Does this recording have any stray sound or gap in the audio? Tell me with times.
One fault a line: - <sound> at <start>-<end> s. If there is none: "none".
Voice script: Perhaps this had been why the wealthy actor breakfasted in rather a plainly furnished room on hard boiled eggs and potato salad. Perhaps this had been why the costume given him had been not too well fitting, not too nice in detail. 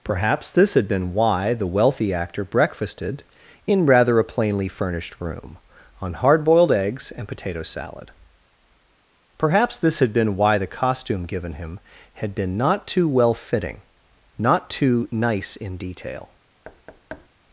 - thud at 16.6-17.3 s